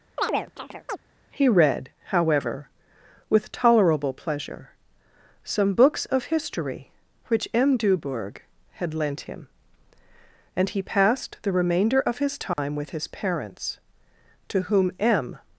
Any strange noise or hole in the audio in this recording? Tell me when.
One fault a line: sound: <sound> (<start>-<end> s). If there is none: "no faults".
sound: chirp (0.2-1.0 s)
sound: dropout (12.5-12.6 s)